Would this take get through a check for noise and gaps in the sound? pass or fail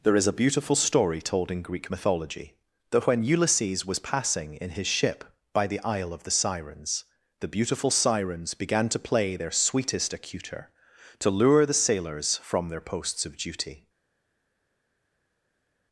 pass